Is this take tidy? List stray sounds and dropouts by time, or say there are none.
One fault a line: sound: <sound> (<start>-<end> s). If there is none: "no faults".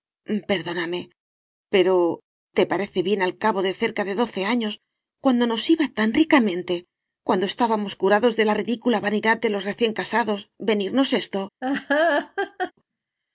sound: laugh (11.6-12.7 s)